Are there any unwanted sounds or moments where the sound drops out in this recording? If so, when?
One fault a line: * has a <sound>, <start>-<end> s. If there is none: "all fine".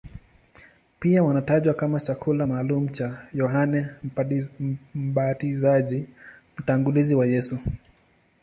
all fine